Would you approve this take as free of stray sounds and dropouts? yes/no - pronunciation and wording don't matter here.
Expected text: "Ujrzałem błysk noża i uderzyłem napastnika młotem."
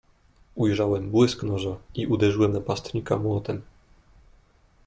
yes